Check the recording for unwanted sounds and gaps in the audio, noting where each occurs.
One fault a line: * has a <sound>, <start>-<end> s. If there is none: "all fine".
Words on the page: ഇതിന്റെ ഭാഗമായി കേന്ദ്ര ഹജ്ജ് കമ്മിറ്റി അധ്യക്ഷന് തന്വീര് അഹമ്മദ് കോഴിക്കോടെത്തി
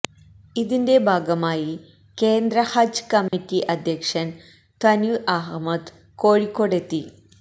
* has a dropout, 3.3-3.3 s